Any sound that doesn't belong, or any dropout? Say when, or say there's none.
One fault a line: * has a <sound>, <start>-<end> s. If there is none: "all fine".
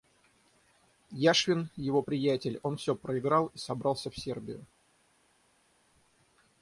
all fine